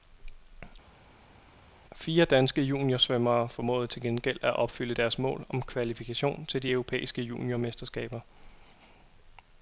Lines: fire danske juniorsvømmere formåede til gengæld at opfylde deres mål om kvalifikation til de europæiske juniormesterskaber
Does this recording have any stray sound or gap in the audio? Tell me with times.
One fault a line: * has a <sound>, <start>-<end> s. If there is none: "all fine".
all fine